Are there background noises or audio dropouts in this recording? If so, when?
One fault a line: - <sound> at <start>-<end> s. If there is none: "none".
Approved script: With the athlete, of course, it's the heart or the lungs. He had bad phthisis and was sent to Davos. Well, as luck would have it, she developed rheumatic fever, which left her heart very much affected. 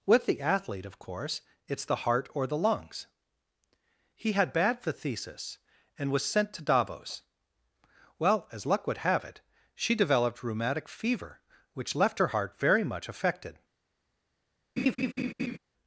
- laugh at 14.8-15.6 s